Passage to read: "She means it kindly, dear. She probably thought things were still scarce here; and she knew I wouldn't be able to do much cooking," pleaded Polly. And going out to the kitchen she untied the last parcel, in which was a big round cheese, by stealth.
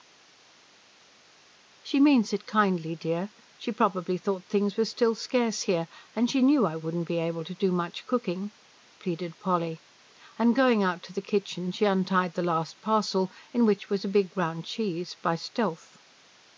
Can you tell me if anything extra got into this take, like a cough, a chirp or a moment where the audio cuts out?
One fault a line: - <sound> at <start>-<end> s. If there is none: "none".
none